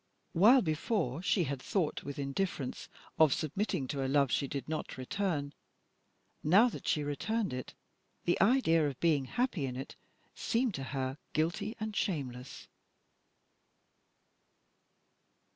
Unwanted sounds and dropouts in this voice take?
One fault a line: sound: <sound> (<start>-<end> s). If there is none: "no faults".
no faults